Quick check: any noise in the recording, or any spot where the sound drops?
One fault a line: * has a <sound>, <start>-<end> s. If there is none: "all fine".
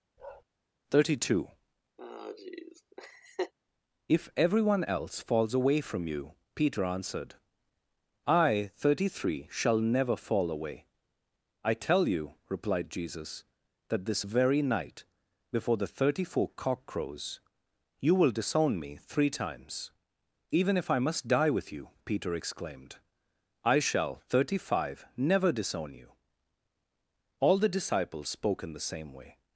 * has a bark, 0.2-0.4 s
* has a laugh, 2.0-3.5 s